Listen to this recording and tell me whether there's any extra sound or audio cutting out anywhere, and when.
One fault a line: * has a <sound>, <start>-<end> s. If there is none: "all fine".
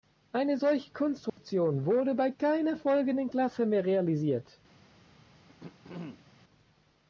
* has a dropout, 1.3-1.4 s
* has a throat clearing, 5.5-6.2 s